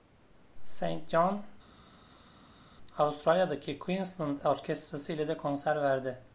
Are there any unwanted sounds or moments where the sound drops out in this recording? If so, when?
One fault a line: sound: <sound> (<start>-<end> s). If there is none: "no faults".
no faults